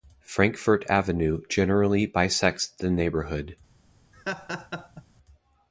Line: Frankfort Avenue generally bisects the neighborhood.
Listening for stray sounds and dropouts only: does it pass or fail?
fail